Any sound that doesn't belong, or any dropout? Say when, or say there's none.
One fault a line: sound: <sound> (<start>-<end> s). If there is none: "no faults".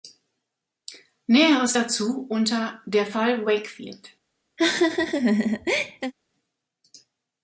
sound: laugh (4.6-6.1 s)